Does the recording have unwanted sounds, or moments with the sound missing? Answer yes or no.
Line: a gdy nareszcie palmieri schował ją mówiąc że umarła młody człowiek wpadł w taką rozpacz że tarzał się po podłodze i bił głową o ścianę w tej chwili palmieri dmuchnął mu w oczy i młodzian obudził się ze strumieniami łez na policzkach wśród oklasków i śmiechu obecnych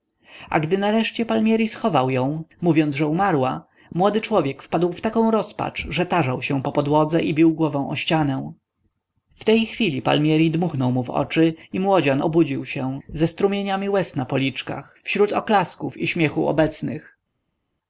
no